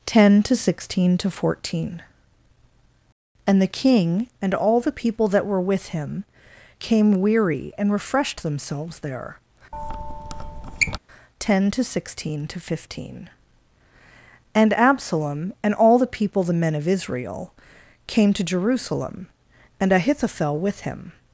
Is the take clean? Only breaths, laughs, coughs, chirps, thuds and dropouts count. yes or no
no